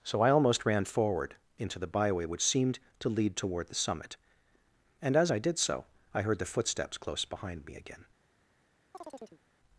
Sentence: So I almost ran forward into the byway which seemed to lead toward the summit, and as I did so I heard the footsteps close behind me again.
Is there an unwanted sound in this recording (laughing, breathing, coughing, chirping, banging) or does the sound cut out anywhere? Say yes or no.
yes